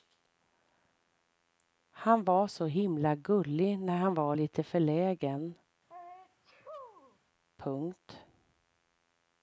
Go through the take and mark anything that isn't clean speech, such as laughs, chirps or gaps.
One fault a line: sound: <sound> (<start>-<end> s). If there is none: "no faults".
sound: sneeze (5.9-7.2 s)